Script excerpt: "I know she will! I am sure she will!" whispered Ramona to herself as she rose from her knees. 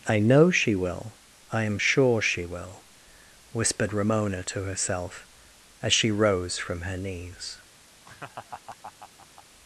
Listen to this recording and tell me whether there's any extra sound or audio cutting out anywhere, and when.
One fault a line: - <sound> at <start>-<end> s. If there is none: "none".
- laugh at 8.0-9.4 s